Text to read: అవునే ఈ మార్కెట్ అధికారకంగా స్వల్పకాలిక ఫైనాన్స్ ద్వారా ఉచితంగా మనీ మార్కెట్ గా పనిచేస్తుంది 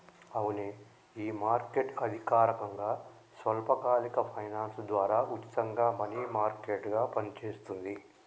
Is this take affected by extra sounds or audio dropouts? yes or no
no